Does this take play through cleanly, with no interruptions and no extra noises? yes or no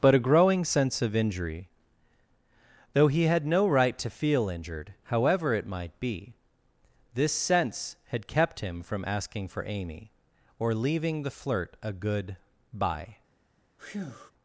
no